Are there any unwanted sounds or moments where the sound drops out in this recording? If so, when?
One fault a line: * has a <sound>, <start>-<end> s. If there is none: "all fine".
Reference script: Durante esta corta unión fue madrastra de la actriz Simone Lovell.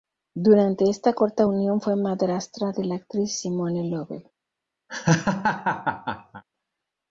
* has a laugh, 4.9-6.4 s